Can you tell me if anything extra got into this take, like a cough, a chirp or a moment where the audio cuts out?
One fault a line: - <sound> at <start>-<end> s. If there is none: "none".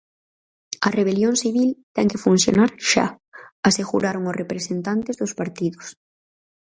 none